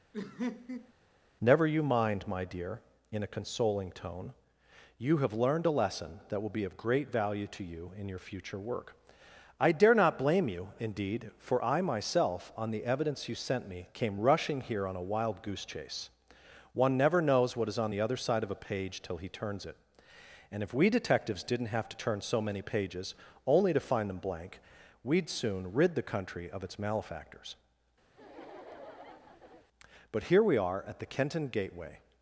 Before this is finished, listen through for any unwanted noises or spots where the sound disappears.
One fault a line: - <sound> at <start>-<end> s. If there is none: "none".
- laugh at 0.1-0.9 s
- laugh at 28.1-29.7 s